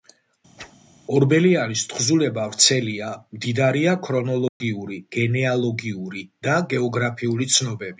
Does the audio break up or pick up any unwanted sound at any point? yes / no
yes